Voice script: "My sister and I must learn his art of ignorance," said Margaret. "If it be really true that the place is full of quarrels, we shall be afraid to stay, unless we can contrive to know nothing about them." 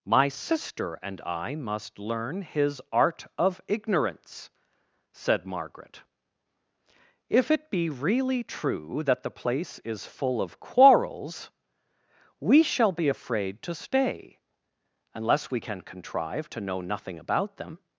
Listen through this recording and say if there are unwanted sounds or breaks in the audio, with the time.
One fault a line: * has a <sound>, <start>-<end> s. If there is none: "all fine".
all fine